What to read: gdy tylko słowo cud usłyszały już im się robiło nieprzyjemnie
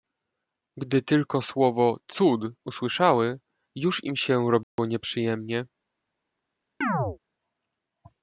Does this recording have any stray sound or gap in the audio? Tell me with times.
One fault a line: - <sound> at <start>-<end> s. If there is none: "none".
- dropout at 4.6-4.8 s
- chirp at 6.8-7.2 s